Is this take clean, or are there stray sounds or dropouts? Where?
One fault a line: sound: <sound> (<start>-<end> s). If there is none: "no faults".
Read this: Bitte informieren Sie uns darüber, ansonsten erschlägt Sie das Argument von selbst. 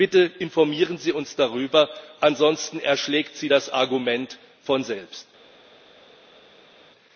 no faults